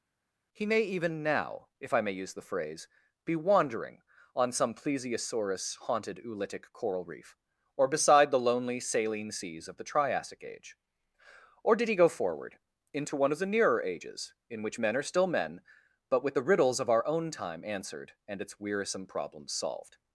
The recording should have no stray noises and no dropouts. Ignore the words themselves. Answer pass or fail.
pass